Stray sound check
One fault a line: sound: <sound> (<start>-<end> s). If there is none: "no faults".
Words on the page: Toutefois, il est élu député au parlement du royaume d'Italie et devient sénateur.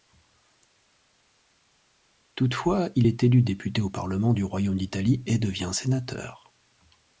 no faults